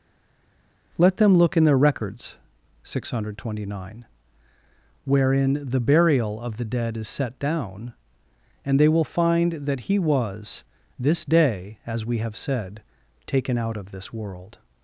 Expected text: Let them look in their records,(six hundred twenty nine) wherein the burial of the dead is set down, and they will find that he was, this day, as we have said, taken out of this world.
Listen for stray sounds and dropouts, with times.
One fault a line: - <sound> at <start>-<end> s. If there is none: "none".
none